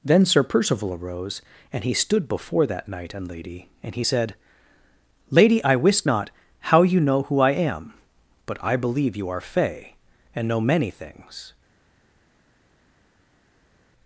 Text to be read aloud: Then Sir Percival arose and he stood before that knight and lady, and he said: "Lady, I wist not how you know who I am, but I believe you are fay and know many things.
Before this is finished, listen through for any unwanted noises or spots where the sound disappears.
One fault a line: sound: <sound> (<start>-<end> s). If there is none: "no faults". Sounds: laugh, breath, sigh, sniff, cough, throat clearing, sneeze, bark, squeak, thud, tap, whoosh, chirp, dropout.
no faults